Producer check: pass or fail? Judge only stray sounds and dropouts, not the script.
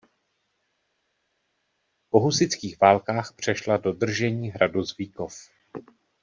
pass